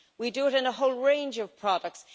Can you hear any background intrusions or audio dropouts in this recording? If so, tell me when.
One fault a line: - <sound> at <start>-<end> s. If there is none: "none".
none